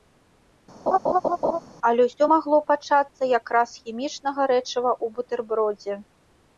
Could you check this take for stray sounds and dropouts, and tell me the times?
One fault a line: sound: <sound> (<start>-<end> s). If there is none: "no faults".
sound: laugh (0.9-1.6 s)